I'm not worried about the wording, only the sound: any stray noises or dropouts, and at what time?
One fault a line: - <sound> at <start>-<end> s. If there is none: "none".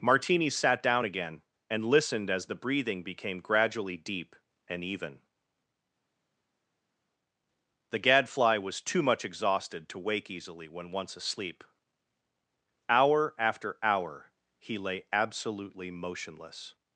none